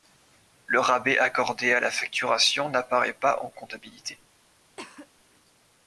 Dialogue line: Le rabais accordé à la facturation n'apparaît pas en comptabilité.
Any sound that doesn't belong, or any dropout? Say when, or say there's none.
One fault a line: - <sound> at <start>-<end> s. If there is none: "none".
- cough at 4.8-5.1 s